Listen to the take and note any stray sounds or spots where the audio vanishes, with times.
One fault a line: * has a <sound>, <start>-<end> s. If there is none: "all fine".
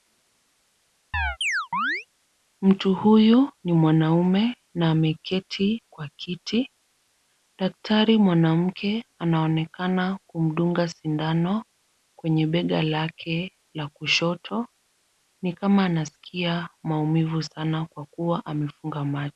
* has a chirp, 1.1-2.1 s